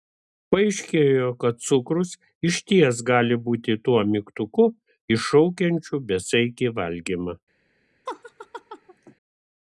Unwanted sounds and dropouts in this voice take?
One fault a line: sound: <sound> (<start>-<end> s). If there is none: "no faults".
sound: laugh (8.1-9.2 s)